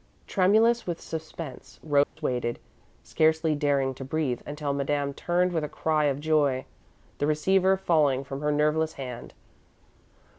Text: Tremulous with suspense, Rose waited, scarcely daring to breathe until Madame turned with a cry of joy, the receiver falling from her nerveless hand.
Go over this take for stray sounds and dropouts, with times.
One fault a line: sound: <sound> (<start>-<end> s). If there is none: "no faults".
sound: dropout (2.0-2.2 s)